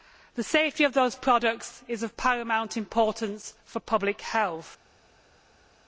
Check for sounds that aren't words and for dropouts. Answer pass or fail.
pass